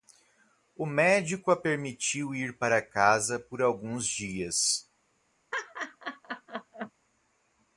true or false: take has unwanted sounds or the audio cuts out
true